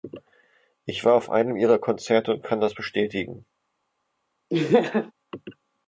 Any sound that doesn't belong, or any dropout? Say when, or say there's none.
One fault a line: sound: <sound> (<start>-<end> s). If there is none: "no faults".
sound: laugh (4.5-5.1 s)